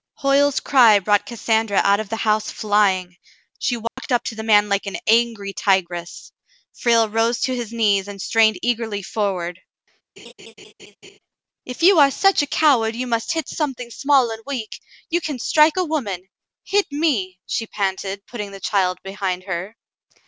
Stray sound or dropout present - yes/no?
yes